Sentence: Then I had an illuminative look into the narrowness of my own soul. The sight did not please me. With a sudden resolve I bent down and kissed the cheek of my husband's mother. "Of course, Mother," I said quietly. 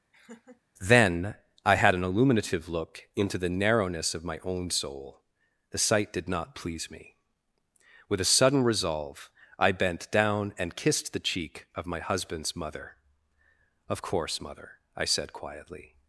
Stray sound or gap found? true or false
true